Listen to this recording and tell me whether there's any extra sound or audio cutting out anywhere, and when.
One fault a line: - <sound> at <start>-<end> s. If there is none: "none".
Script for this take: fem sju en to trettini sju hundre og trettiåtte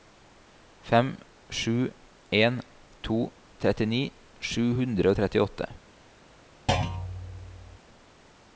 - thud at 6.7-7.8 s